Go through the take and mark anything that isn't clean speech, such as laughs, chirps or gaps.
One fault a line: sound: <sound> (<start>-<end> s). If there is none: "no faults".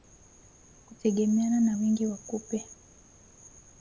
no faults